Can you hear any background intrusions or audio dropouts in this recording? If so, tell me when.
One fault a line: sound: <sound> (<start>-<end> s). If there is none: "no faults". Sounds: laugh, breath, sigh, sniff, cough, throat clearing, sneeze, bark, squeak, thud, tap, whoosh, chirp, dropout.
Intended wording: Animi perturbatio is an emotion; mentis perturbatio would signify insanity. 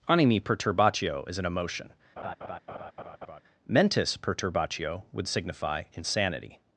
sound: laugh (2.2-3.4 s)